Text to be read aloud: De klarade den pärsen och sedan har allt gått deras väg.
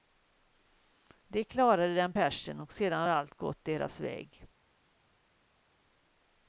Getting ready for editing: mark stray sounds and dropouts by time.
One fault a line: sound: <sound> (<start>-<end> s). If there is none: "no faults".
no faults